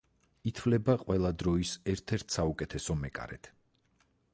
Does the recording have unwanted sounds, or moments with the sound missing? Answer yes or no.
no